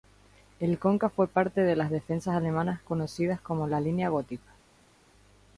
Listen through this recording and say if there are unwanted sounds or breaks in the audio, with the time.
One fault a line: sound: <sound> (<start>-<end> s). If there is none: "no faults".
no faults